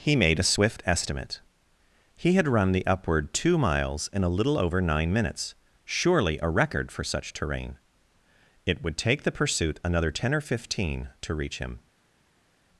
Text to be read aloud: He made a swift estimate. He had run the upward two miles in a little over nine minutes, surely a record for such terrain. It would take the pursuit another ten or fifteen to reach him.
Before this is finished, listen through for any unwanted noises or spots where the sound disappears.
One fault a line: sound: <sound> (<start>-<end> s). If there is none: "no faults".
no faults